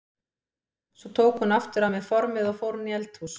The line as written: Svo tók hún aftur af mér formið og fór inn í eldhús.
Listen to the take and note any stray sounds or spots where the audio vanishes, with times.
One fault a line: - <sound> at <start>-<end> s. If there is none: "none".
none